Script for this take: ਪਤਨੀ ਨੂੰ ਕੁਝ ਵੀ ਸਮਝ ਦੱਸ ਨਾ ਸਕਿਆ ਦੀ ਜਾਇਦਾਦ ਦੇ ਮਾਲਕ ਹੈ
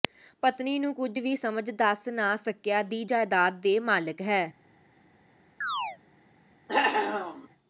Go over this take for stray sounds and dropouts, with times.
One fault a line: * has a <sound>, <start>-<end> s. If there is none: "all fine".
* has a chirp, 5.6-6.0 s
* has a cough, 6.7-7.5 s